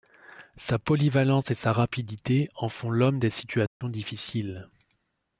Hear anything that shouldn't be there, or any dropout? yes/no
yes